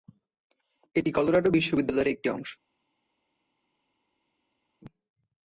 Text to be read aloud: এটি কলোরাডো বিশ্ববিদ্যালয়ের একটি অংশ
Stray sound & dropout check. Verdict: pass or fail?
pass